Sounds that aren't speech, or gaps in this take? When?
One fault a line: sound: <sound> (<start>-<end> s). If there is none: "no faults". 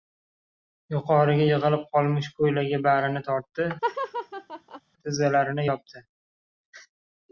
sound: laugh (3.8-4.8 s)